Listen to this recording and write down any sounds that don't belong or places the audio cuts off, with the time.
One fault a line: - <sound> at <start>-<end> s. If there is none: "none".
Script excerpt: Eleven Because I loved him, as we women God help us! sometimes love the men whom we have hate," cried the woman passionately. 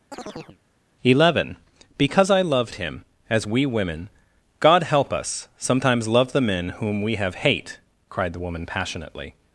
- chirp at 0.1-0.6 s